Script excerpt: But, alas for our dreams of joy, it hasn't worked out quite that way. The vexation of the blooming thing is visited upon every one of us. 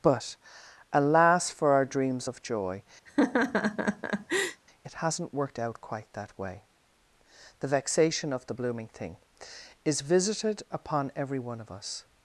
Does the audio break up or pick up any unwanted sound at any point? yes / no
yes